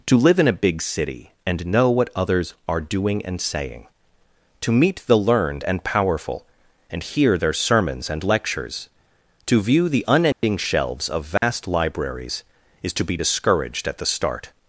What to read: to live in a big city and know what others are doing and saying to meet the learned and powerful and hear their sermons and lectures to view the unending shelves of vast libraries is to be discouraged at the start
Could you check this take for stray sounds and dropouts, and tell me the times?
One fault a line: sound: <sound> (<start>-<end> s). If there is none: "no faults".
sound: dropout (10.3-10.4 s)
sound: dropout (11.4-11.4 s)